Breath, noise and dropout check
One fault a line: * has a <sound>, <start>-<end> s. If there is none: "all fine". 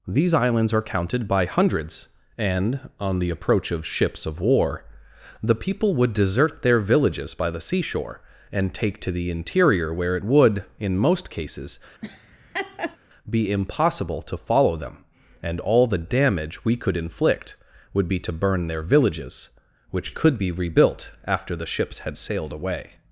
* has a laugh, 12.0-13.0 s